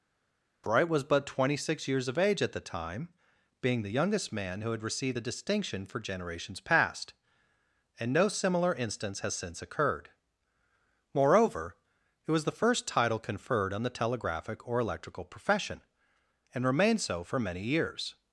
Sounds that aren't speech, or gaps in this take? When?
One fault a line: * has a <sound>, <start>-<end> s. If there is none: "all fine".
all fine